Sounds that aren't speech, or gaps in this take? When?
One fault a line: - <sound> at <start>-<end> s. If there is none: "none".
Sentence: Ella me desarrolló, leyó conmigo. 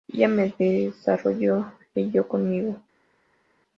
none